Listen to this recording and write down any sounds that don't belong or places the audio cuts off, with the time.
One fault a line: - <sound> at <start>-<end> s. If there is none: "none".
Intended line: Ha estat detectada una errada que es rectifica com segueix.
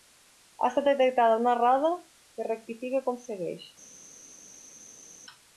none